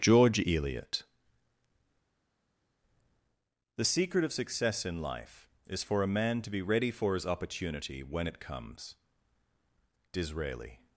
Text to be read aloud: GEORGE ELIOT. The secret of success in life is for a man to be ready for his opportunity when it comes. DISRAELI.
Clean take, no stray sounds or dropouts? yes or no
yes